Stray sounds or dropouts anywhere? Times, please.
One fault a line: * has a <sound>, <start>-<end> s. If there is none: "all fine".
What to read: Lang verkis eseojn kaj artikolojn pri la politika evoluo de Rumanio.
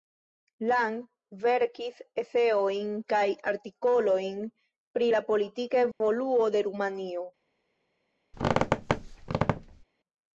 * has a dropout, 5.9-6.0 s
* has a squeak, 8.3-9.8 s